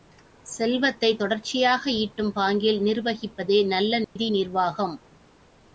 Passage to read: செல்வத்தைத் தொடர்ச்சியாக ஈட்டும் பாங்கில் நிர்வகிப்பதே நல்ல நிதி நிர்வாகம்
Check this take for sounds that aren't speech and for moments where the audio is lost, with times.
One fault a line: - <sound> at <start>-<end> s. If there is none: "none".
- dropout at 4.0-4.2 s